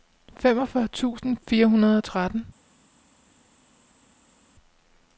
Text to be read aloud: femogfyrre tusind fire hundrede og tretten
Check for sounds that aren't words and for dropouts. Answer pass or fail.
pass